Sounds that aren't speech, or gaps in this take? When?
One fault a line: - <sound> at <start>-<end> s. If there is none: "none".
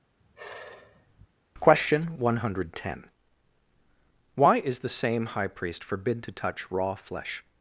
- sigh at 0.2-1.3 s